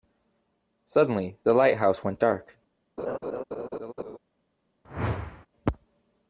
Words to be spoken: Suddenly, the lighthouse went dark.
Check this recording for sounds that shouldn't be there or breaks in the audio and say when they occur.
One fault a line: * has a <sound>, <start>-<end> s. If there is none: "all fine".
* has a laugh, 3.0-4.2 s
* has a whoosh, 4.8-5.5 s